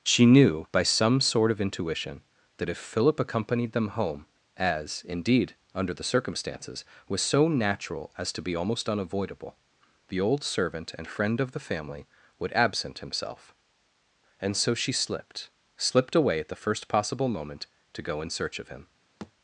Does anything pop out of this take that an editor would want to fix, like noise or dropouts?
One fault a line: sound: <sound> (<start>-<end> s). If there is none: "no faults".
sound: thud (19.2-19.3 s)